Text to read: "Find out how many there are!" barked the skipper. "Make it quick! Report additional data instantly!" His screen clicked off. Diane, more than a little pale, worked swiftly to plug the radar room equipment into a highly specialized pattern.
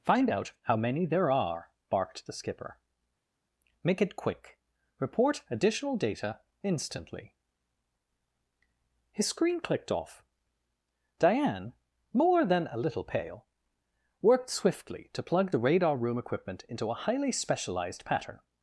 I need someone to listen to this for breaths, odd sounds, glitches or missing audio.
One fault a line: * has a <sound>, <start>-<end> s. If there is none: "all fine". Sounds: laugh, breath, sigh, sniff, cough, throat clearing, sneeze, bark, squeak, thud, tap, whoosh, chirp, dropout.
all fine